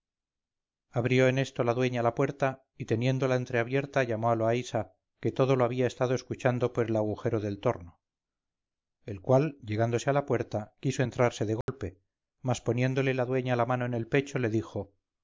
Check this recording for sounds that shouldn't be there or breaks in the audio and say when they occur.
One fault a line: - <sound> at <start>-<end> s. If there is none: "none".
- dropout at 11.6-11.7 s